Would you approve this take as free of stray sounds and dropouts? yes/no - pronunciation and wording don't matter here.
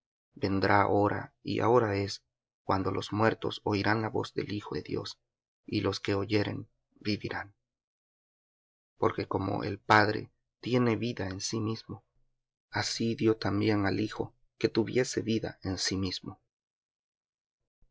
yes